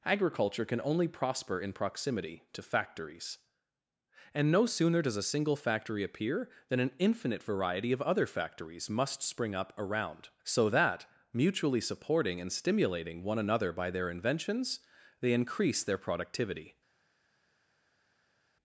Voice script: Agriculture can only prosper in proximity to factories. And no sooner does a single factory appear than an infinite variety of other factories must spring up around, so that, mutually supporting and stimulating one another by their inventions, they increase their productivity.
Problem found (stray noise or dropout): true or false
false